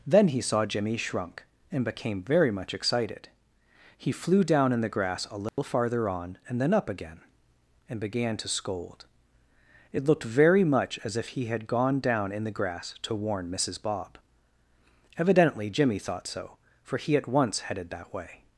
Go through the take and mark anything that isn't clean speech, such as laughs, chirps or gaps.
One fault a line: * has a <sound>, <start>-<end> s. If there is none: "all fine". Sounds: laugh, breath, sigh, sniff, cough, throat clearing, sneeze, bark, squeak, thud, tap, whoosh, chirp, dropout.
* has a dropout, 5.5-5.6 s